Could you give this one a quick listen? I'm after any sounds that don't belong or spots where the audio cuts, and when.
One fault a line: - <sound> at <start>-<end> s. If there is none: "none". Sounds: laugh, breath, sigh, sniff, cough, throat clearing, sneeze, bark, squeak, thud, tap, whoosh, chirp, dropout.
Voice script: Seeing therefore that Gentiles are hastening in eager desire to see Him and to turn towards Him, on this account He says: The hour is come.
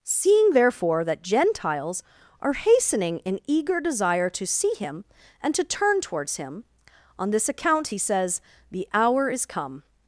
none